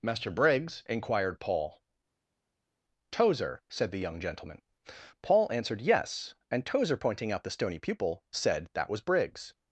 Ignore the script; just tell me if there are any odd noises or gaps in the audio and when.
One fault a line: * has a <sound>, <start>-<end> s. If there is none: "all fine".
all fine